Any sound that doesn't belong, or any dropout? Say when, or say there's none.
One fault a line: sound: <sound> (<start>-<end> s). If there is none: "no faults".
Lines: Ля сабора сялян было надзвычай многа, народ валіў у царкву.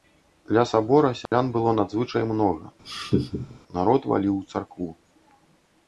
sound: dropout (1.3-1.3 s)
sound: laugh (2.8-3.6 s)